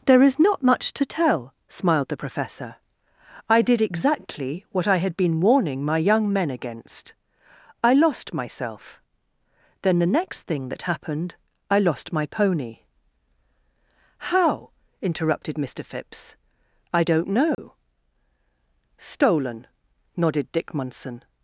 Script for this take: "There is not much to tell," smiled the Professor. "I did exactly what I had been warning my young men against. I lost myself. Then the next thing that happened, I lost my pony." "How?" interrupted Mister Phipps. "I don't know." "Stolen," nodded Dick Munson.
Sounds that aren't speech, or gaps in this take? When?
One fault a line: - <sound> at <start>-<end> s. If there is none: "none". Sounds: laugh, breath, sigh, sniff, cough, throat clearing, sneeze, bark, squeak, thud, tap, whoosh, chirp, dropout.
- dropout at 17.5-17.6 s